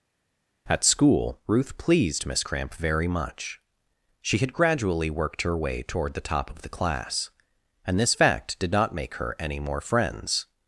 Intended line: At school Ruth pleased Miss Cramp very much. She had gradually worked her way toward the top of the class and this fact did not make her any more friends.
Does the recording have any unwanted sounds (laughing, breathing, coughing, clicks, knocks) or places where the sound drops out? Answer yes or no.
no